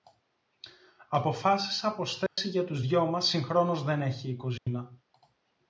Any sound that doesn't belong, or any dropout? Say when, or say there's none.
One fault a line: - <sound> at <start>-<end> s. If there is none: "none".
- dropout at 2.3-2.4 s
- dropout at 4.6-4.7 s